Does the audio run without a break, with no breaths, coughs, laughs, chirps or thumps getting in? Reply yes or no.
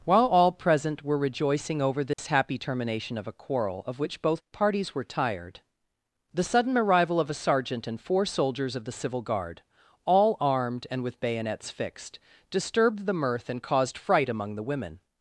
no